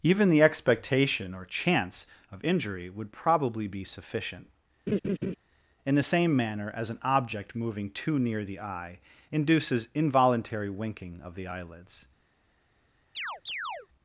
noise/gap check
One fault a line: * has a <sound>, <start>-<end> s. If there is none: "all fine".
* has a laugh, 4.9-5.4 s
* has a chirp, 13.1-13.9 s